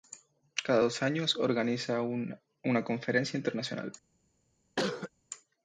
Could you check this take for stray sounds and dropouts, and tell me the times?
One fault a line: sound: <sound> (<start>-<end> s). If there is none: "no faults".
sound: cough (4.8-5.1 s)